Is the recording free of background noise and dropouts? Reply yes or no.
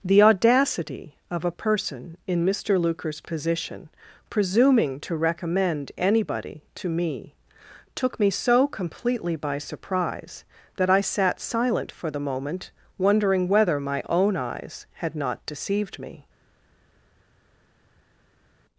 yes